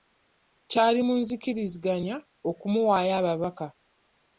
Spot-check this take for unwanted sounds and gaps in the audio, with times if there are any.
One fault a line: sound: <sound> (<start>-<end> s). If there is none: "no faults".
no faults